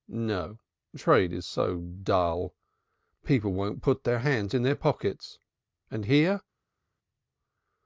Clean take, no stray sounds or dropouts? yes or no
yes